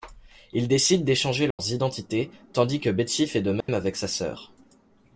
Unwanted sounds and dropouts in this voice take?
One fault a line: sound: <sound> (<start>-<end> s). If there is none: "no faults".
sound: dropout (1.5-1.6 s)
sound: dropout (3.6-3.7 s)